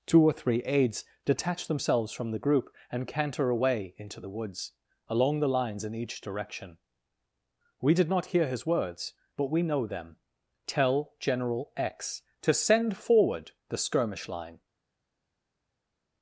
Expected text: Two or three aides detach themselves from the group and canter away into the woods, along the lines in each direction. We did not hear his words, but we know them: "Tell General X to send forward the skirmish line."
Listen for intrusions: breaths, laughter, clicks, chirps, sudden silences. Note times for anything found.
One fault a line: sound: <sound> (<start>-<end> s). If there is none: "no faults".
no faults